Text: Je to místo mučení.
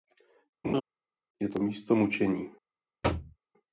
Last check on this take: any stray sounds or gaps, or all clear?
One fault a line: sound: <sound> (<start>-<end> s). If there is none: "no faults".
sound: laugh (0.6-0.8 s)
sound: thud (3.0-3.4 s)